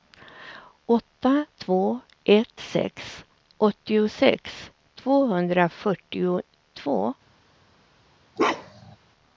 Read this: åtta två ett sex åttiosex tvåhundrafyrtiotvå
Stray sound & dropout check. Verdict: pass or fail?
fail